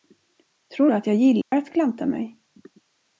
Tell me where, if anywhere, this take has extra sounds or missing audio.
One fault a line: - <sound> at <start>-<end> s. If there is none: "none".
- dropout at 1.4-1.5 s